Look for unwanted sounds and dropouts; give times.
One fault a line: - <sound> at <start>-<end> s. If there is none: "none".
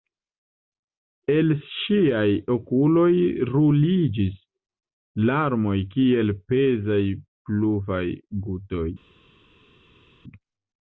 none